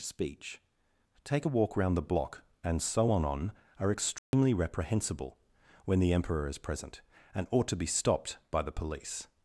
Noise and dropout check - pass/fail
fail